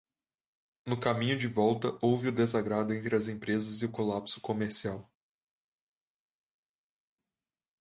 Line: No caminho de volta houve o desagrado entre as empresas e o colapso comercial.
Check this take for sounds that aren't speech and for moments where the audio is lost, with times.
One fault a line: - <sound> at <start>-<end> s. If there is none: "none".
none